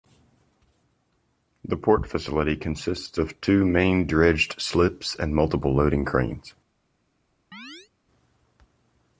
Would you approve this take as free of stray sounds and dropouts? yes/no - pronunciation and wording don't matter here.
no